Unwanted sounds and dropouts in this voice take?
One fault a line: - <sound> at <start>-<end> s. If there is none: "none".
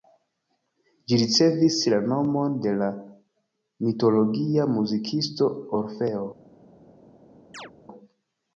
- chirp at 7.5-7.7 s